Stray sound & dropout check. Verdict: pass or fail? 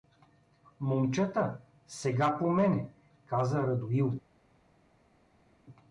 pass